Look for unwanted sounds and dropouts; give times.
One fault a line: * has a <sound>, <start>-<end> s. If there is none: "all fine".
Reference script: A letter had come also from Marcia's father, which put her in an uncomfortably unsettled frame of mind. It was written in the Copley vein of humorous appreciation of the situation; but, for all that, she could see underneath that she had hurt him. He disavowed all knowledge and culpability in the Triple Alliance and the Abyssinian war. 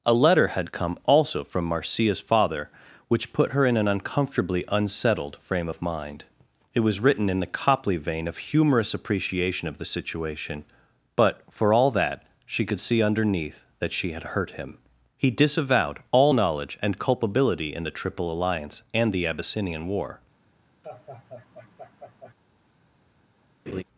* has a laugh, 20.8-22.3 s
* has a laugh, 23.7-23.8 s